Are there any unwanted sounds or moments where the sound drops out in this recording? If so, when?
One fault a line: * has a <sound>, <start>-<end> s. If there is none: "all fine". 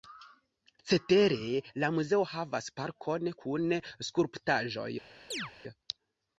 * has a chirp, 5.3-5.5 s